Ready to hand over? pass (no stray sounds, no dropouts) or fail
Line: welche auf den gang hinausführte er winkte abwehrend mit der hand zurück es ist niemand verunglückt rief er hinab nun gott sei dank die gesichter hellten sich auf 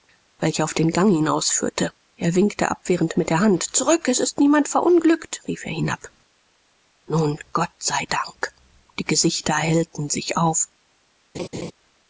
fail